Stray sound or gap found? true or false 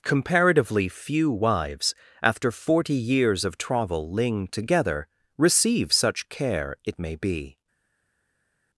false